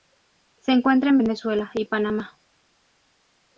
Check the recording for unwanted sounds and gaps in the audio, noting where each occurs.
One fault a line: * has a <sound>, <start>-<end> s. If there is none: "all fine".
all fine